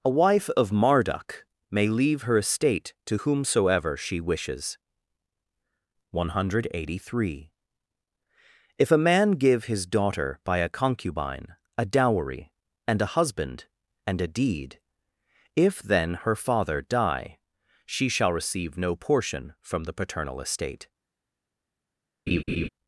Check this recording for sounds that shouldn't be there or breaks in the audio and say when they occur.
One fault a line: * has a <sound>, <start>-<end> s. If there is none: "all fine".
* has a laugh, 22.3-22.7 s